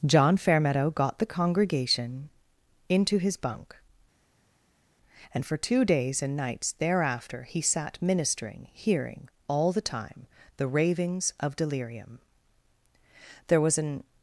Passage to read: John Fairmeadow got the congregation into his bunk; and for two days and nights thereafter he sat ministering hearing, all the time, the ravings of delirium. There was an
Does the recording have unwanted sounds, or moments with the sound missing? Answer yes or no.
no